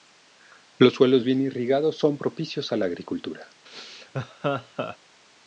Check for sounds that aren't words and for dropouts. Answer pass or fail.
fail